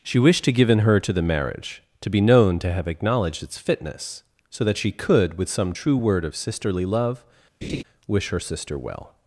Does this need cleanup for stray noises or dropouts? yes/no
yes